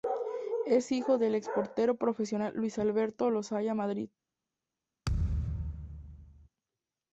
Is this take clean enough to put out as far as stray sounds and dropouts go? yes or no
no